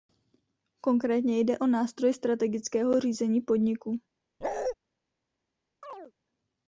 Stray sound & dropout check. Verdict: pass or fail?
fail